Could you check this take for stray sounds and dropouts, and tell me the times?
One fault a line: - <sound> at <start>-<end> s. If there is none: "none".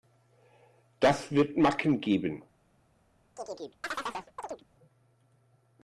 - chirp at 3.4-4.6 s